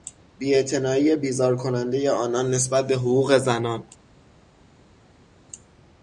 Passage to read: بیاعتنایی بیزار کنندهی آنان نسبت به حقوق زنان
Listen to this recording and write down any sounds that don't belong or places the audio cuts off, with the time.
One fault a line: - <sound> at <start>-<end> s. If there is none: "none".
none